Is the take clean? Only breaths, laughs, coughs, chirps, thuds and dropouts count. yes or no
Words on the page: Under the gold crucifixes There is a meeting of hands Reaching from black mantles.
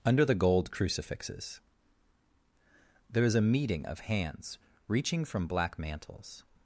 yes